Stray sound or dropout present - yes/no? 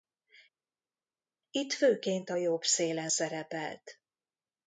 no